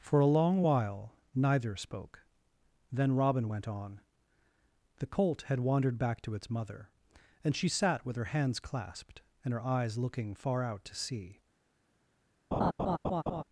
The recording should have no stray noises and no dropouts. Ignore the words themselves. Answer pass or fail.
fail